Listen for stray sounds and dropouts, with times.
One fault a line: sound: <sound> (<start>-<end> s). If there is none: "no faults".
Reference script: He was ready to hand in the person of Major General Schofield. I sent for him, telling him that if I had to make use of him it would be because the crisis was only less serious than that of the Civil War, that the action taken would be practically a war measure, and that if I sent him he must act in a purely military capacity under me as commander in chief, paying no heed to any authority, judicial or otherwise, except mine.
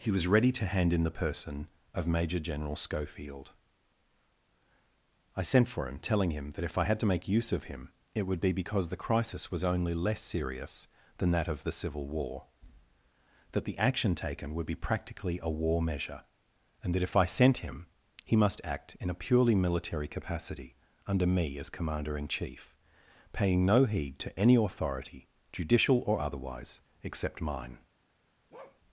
sound: bark (28.5-28.8 s)